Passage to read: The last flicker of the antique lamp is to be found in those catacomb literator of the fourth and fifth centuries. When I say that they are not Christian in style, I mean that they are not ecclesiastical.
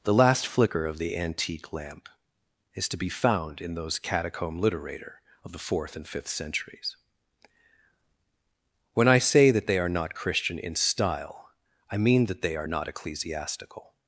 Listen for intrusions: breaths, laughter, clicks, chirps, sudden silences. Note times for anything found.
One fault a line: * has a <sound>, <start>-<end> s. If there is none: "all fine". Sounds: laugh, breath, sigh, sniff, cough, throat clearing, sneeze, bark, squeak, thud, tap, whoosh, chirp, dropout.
all fine